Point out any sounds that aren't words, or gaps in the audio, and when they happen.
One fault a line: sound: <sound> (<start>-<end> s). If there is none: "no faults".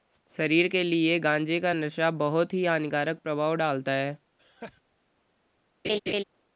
sound: laugh (4.4-4.8 s)
sound: laugh (5.8-6.2 s)